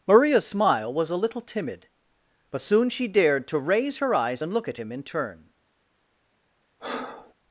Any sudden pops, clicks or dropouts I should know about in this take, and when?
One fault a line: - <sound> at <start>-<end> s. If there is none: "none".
- breath at 6.8-7.3 s